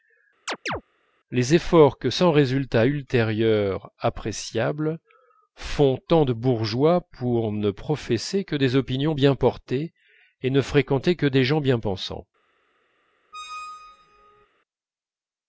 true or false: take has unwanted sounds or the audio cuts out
true